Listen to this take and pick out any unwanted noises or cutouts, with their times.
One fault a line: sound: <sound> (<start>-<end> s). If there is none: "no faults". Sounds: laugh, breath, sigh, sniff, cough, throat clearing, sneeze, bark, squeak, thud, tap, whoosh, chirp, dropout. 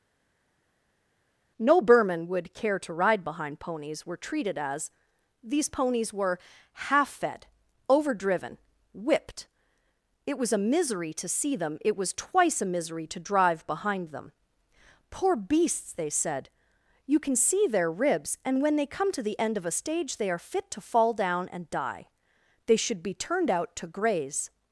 no faults